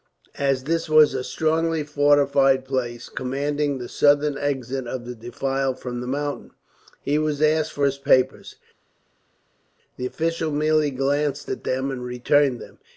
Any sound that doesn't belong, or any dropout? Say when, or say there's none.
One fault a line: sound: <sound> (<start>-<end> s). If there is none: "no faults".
no faults